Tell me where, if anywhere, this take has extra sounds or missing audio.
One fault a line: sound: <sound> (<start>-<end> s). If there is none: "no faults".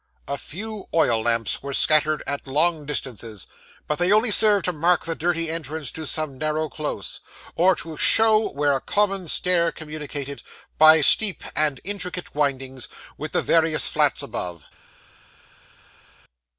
no faults